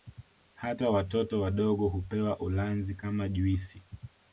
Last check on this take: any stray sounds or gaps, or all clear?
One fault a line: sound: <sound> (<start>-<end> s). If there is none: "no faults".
no faults